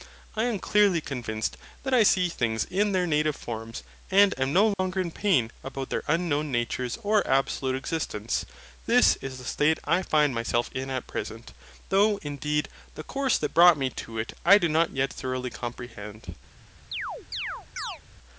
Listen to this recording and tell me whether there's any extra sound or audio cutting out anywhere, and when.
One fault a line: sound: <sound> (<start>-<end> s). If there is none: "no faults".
sound: dropout (4.7-4.8 s)
sound: chirp (16.9-18.0 s)